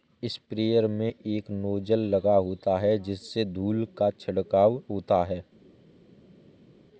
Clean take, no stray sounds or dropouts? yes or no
yes